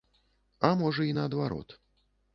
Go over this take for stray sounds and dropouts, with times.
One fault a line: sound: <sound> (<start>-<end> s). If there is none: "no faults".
no faults